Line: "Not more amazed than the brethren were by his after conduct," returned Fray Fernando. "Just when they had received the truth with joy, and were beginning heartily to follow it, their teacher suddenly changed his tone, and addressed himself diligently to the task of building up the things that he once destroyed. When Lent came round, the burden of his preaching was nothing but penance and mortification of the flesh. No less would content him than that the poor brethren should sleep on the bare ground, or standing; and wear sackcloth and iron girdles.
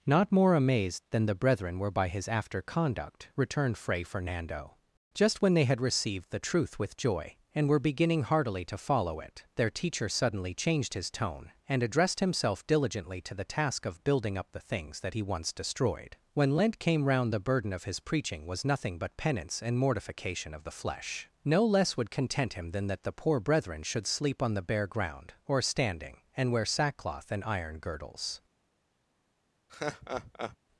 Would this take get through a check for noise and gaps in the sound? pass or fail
fail